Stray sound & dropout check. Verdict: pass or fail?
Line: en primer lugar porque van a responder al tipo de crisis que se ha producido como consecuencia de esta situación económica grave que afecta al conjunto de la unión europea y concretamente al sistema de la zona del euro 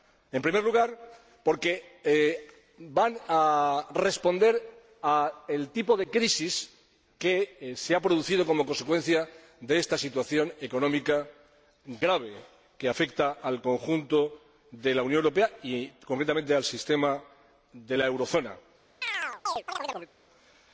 fail